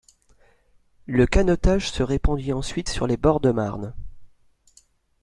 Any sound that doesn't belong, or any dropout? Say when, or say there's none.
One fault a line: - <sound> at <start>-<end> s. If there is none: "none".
none